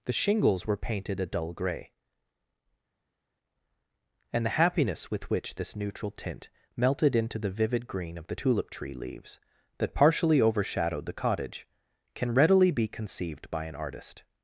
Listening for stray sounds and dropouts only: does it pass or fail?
pass